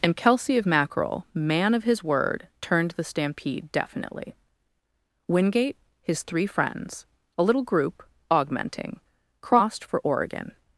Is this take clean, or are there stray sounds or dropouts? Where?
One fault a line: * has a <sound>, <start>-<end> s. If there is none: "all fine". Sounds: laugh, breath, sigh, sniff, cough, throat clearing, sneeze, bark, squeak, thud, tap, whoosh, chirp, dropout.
all fine